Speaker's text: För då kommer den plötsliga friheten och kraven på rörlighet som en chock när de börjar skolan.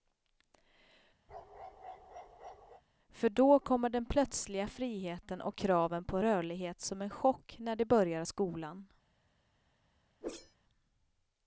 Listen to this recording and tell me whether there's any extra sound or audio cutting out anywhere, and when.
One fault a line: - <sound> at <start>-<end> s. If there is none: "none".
- bark at 1.3-2.8 s
- whoosh at 10.2-10.6 s